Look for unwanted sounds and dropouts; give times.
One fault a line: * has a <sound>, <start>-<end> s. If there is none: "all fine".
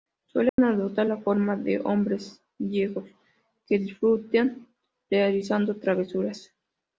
* has a dropout, 0.5-0.6 s